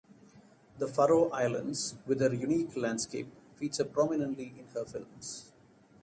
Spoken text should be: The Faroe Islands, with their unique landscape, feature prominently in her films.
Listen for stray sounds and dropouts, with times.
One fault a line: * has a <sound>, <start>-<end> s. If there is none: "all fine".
all fine